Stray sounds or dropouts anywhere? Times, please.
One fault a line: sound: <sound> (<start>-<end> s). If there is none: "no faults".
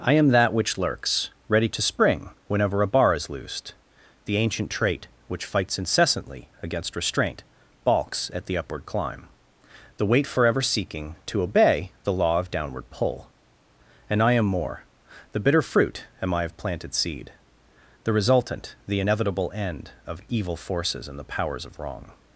no faults